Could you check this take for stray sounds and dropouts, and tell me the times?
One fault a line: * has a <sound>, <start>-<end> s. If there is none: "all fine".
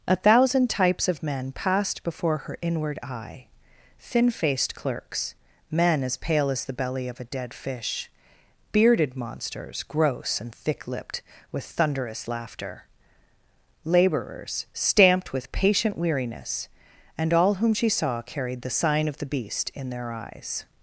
all fine